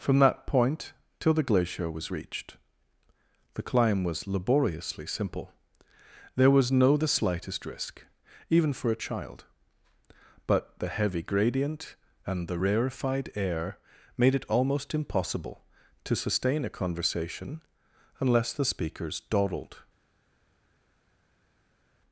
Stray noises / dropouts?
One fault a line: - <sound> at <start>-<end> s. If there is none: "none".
none